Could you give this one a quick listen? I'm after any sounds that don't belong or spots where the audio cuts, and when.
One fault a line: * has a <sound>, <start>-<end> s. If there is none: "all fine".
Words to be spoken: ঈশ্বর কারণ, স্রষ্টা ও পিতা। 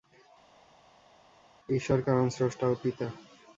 all fine